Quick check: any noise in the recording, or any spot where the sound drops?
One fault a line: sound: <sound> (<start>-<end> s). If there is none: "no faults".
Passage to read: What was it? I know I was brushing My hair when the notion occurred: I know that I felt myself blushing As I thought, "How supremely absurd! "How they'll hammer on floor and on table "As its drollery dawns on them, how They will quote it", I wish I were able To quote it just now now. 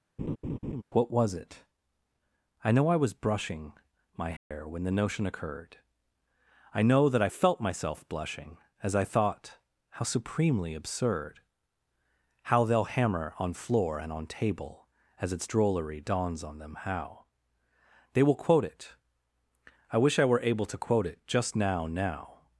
sound: laugh (0.2-0.8 s)
sound: dropout (4.4-4.5 s)